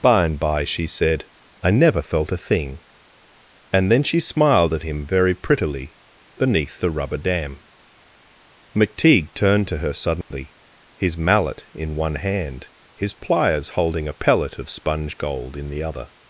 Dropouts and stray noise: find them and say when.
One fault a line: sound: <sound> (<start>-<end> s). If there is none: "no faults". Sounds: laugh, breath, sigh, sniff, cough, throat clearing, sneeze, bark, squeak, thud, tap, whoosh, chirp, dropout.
sound: dropout (10.2-10.3 s)